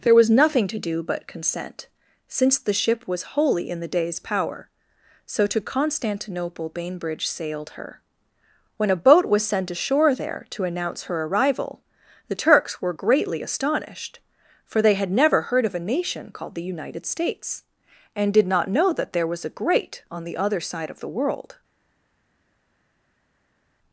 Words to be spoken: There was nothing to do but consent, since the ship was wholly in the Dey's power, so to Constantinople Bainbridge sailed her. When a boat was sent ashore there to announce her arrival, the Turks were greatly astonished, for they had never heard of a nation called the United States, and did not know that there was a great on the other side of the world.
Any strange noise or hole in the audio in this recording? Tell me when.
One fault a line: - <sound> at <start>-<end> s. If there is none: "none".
none